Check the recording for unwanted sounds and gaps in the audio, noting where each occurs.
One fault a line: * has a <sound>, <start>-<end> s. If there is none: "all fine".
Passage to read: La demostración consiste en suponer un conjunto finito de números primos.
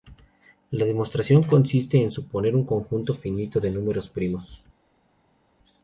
all fine